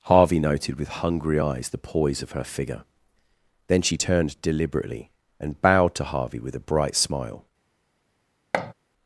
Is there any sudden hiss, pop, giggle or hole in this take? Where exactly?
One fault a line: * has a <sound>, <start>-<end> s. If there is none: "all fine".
* has a thud, 8.5-8.7 s